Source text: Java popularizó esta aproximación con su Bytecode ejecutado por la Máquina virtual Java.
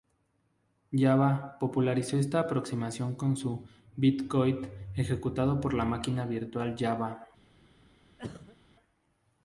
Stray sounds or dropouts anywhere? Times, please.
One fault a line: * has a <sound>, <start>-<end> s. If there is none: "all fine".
* has a cough, 8.2-8.6 s